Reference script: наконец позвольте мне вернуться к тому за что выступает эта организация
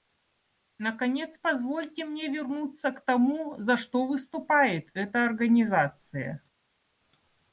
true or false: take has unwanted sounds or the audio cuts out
false